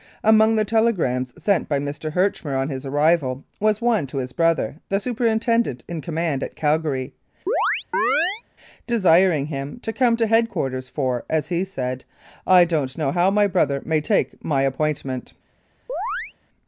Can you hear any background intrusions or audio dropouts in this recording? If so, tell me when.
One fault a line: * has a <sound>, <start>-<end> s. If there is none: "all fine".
* has a chirp, 7.5-8.4 s
* has a chirp, 15.9-16.3 s